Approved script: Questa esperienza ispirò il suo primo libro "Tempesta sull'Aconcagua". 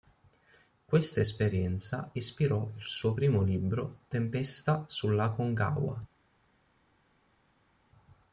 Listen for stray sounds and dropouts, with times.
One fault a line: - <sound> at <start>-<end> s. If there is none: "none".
none